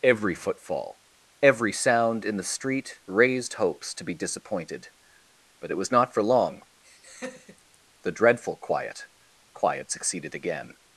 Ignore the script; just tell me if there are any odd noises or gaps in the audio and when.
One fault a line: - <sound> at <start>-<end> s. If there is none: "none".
- laugh at 6.8-7.8 s